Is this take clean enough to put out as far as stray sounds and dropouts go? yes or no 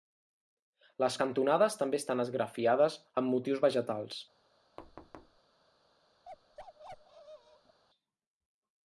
no